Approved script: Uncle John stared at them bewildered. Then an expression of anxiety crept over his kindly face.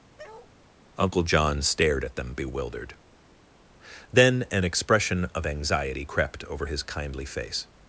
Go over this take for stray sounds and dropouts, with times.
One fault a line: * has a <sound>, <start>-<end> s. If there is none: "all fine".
* has a bark, 0.2-0.5 s